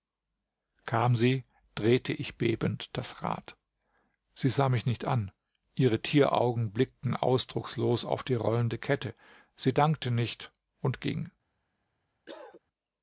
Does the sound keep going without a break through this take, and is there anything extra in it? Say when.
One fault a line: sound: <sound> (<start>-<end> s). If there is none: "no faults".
sound: cough (12.3-12.6 s)